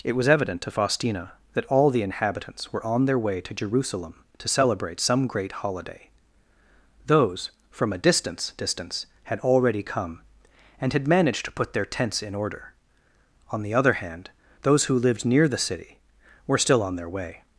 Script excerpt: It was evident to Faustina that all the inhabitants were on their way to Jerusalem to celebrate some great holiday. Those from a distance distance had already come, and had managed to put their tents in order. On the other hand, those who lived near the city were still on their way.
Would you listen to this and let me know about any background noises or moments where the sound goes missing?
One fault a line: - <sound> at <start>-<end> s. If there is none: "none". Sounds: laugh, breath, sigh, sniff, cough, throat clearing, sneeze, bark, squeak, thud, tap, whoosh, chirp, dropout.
none